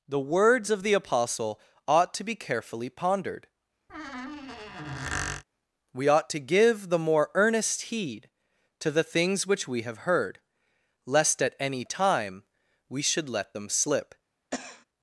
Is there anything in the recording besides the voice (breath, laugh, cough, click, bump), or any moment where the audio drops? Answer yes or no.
yes